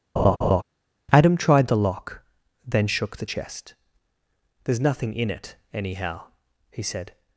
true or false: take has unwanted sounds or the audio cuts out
true